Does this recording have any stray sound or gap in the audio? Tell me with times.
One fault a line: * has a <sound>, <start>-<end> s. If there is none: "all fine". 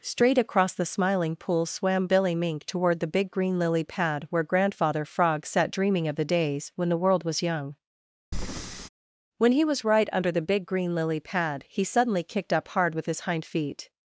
* has a breath, 8.3-8.9 s